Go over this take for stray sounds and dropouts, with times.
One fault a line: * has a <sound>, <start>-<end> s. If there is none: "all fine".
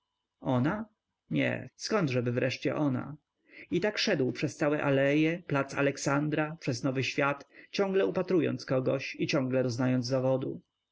all fine